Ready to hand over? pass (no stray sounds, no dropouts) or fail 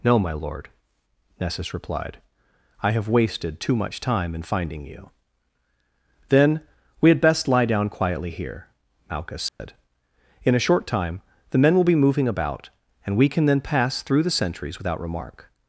fail